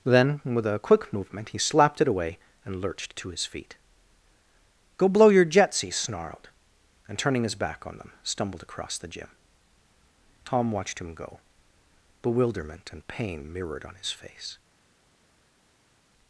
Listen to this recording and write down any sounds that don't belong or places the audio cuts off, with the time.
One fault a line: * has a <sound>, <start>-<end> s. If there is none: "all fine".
all fine